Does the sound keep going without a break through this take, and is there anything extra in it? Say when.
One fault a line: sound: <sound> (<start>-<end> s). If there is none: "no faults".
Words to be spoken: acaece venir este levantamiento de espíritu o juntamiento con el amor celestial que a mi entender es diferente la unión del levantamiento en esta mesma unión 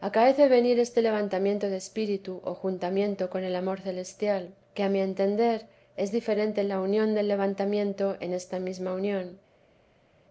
no faults